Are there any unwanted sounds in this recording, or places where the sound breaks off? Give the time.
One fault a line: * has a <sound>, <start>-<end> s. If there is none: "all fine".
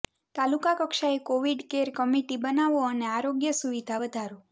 all fine